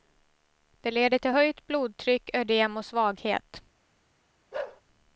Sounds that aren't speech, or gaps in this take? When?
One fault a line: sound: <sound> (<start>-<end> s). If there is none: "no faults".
sound: bark (4.5-4.8 s)